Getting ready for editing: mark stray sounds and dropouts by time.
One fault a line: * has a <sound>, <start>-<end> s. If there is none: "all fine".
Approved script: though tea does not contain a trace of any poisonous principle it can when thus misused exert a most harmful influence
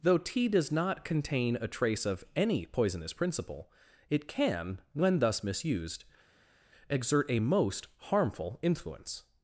all fine